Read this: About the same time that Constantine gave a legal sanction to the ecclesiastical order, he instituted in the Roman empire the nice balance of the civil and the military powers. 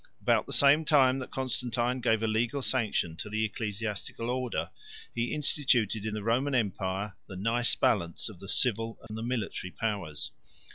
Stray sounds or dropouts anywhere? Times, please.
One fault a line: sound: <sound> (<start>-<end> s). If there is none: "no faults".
sound: dropout (9.1-9.1 s)